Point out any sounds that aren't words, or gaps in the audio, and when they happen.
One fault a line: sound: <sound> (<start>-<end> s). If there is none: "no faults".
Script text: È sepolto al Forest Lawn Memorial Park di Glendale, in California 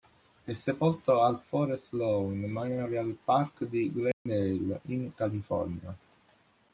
sound: dropout (4.1-4.3 s)